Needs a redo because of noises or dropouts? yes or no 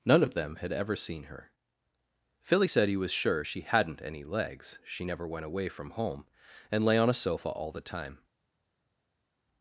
no